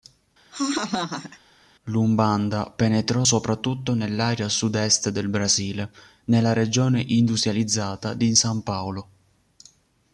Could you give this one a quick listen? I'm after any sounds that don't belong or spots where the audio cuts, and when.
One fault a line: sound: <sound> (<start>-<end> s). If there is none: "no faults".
sound: laugh (0.5-1.4 s)